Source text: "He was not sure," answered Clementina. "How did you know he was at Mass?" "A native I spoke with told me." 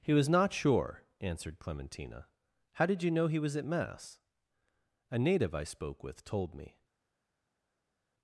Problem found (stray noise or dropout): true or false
false